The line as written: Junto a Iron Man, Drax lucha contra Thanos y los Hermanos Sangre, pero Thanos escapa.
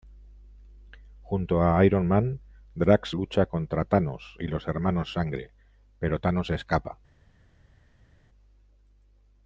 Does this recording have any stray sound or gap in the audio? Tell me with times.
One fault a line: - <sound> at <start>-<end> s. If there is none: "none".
none